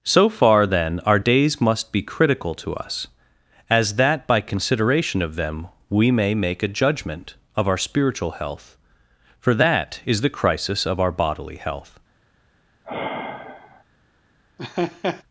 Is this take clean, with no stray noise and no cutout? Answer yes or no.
no